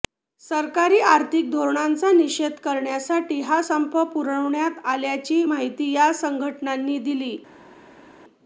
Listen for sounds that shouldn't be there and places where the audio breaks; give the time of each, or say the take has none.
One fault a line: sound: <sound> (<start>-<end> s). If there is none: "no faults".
no faults